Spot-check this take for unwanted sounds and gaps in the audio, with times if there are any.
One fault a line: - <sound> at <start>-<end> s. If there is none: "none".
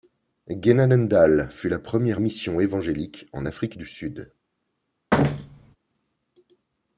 - thud at 5.1-5.8 s